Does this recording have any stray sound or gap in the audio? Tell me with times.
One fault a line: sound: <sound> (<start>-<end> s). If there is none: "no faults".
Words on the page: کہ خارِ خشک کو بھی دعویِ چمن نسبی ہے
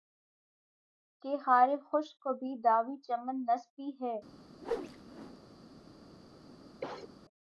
sound: whoosh (4.6-5.4 s)
sound: cough (6.8-7.1 s)